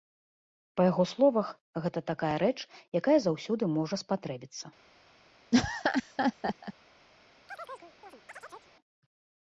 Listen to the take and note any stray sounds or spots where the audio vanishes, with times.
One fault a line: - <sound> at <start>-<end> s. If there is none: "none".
- laugh at 5.5-6.7 s
- chirp at 7.5-8.7 s